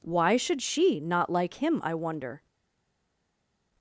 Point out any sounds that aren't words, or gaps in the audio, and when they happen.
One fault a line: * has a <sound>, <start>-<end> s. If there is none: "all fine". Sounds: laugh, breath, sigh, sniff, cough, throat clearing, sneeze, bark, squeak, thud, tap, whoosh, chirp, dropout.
all fine